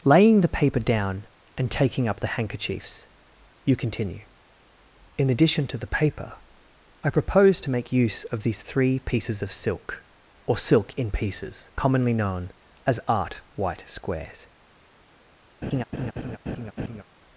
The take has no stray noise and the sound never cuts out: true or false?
false